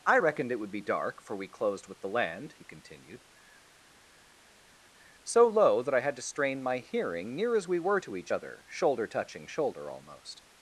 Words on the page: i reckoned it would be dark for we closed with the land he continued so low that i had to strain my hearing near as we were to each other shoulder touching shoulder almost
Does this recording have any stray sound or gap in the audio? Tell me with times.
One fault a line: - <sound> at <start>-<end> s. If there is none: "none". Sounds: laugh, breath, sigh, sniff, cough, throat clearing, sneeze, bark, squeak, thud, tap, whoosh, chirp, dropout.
none